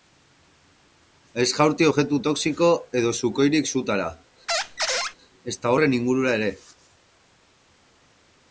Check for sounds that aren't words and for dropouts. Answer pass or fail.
fail